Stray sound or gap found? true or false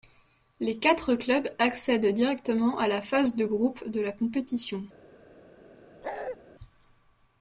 true